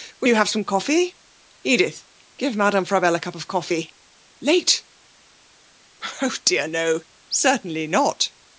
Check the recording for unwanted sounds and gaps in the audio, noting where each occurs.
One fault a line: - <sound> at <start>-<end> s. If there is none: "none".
none